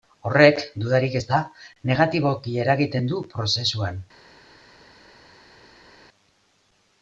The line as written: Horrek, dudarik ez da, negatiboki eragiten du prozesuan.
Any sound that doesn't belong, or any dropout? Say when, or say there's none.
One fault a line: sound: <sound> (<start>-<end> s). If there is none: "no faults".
no faults